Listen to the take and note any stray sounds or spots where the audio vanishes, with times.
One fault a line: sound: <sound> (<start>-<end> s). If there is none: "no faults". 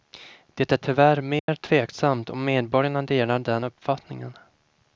sound: dropout (1.4-1.5 s)